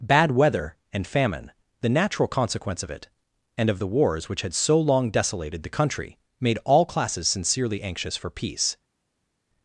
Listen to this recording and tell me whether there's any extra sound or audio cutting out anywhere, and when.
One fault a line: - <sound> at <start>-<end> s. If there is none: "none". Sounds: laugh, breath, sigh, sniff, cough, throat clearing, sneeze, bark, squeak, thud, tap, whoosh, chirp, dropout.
none